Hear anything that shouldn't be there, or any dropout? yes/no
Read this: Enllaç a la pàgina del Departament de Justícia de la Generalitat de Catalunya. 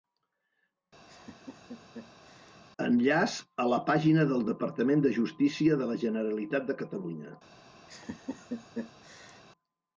yes